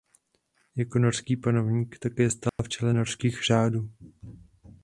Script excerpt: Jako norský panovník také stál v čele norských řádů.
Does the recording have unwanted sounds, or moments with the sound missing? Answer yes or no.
yes